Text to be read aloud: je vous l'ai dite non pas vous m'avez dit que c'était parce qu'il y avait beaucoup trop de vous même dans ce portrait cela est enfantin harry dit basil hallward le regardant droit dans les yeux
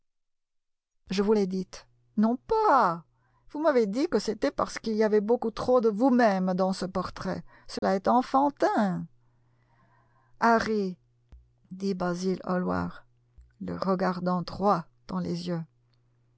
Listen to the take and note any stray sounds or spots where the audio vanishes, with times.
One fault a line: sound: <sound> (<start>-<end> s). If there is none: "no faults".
sound: dropout (7.8-7.8 s)